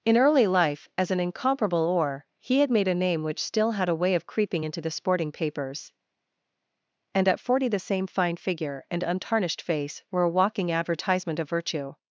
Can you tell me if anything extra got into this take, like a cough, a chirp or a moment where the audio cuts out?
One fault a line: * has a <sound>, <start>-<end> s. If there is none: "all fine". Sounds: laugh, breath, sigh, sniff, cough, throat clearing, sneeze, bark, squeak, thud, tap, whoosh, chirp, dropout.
all fine